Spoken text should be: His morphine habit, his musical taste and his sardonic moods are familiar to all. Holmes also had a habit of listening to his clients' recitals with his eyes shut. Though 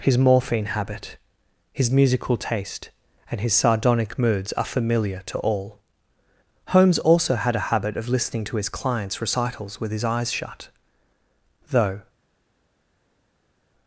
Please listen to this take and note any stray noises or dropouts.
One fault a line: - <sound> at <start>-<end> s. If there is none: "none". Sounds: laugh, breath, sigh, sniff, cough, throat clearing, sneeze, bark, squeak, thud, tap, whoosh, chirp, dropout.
none